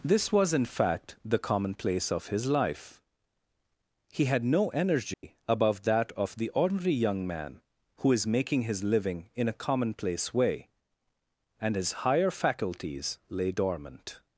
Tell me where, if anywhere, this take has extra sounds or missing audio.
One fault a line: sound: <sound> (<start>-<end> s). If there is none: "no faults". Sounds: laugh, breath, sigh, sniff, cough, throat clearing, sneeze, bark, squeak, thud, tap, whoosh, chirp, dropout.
sound: dropout (5.1-5.2 s)